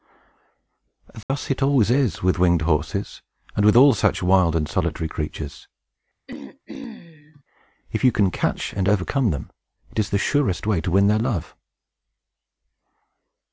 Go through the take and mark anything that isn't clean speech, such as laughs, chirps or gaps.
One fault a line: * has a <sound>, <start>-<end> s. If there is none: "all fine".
* has a dropout, 1.2-1.3 s
* has a throat clearing, 6.3-7.4 s